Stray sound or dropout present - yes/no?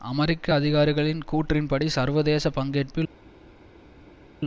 no